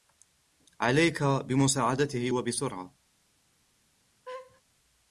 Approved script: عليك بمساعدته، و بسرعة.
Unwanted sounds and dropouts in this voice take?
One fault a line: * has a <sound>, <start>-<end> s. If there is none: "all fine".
* has a laugh, 4.3-4.6 s